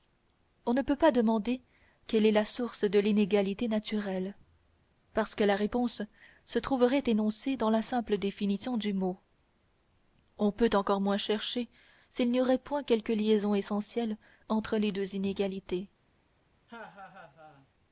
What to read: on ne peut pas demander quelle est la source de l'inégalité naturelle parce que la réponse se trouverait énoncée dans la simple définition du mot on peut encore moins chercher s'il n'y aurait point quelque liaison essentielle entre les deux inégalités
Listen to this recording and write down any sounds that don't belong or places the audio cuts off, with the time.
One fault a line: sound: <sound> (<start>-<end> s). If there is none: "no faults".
sound: laugh (16.7-17.7 s)